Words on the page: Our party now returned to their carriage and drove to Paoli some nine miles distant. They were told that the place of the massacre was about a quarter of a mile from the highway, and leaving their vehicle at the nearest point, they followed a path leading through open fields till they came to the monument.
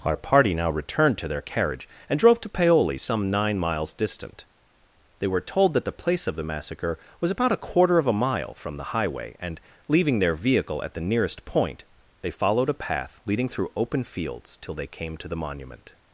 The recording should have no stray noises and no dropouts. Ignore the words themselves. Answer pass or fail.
pass